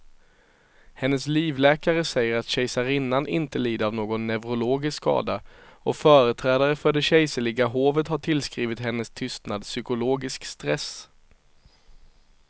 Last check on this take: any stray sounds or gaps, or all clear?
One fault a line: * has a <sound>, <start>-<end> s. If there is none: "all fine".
all fine